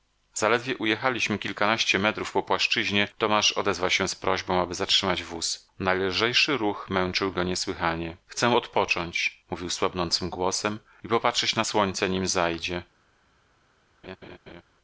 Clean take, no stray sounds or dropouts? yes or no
no